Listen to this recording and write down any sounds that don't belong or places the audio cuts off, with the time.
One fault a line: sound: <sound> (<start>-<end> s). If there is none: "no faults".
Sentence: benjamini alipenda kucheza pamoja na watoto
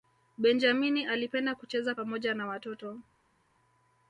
no faults